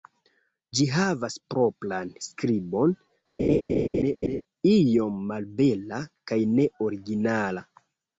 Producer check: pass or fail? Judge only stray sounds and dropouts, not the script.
fail